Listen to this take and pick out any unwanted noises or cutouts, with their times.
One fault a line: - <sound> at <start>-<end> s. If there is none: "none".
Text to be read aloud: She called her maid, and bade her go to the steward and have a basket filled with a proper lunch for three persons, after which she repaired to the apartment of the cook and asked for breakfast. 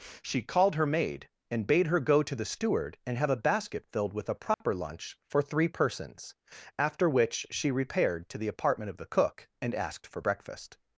- dropout at 4.5-4.6 s